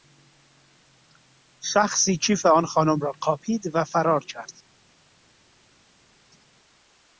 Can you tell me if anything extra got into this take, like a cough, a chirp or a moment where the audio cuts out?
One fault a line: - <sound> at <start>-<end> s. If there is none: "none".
none